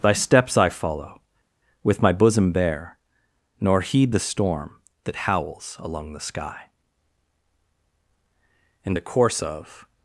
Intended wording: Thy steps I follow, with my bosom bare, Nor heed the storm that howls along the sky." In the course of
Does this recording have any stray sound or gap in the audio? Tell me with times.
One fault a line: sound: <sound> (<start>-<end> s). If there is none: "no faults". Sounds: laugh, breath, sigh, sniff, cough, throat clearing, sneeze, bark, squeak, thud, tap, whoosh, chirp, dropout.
no faults